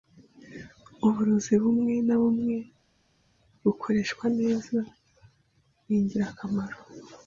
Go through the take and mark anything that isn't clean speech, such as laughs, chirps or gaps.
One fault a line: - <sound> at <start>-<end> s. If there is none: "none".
none